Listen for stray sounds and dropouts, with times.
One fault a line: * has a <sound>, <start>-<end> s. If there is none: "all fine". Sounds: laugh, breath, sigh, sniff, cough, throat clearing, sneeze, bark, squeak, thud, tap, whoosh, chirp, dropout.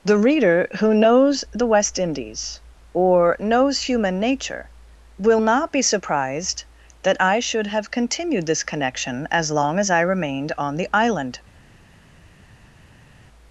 all fine